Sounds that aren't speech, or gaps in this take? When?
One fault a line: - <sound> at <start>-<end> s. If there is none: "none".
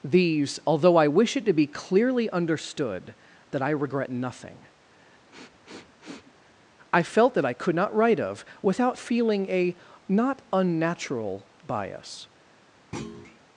- sniff at 5.3-6.3 s
- thud at 12.9-13.4 s